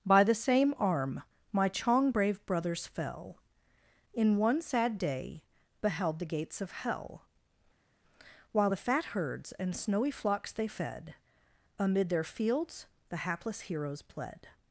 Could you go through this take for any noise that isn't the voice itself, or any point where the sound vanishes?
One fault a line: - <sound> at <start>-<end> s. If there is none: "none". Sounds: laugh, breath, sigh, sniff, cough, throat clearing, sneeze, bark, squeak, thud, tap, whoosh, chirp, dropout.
none